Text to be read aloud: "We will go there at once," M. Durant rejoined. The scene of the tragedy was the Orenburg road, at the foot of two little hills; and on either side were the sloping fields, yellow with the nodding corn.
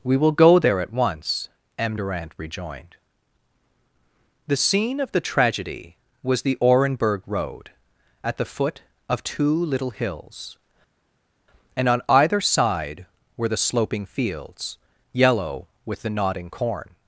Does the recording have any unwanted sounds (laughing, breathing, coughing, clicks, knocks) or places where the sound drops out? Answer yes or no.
no